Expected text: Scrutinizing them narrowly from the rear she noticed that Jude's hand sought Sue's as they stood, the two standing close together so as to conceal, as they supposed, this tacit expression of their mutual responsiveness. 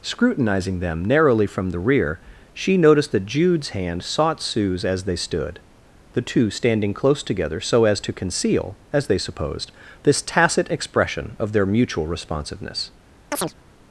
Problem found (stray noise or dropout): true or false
true